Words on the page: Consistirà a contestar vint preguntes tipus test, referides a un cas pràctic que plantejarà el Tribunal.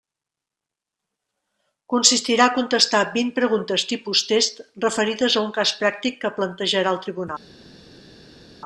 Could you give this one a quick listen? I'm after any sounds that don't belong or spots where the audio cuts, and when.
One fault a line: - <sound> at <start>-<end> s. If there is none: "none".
none